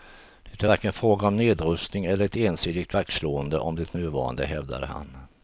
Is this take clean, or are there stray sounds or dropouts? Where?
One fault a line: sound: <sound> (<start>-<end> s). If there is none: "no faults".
no faults